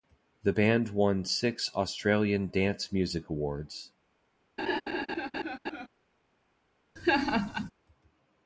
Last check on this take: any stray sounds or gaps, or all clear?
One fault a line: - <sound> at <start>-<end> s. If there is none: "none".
- laugh at 4.6-5.9 s
- laugh at 7.0-7.7 s